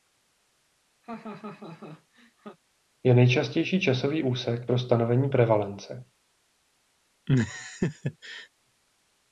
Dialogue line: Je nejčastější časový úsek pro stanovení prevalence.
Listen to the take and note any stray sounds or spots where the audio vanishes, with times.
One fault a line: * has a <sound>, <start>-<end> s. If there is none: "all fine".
* has a laugh, 1.0-2.6 s
* has a laugh, 7.3-8.5 s